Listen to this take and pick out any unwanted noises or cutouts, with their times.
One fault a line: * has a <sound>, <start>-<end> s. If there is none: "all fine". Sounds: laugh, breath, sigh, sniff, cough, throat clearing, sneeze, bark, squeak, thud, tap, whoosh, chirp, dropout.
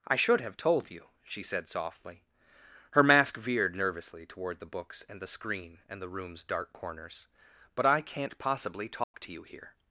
* has a dropout, 9.0-9.1 s